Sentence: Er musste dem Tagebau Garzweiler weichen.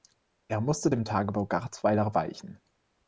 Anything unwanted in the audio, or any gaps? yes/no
no